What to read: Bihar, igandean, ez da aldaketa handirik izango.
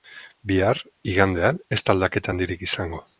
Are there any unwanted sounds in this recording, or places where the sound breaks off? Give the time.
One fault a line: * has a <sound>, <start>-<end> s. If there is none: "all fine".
all fine